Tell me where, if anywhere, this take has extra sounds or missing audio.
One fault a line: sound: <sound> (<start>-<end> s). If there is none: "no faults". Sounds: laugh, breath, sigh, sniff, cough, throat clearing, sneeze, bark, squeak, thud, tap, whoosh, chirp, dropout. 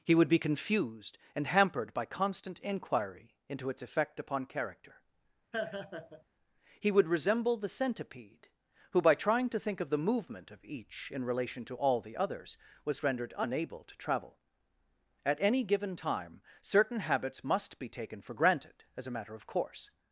sound: laugh (5.5-6.2 s)